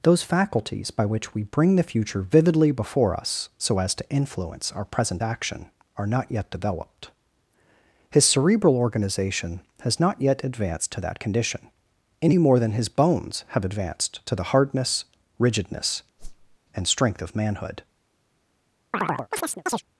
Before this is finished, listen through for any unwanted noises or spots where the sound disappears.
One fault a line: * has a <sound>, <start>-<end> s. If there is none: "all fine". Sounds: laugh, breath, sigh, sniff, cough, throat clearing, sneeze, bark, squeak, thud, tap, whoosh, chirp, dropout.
* has a whoosh, 16.2-16.6 s
* has a chirp, 18.9-19.8 s